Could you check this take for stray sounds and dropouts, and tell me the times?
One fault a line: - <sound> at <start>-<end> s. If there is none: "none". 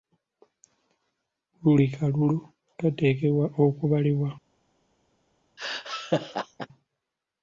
- laugh at 5.6-6.7 s